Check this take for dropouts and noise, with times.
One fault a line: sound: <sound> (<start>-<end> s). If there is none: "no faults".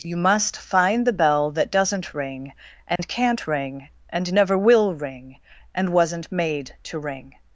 sound: dropout (3.0-3.0 s)